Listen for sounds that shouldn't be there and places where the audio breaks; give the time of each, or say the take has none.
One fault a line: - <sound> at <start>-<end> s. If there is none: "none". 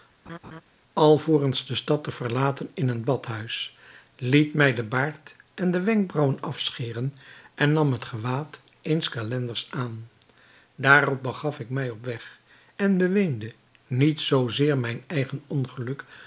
- laugh at 0.3-0.6 s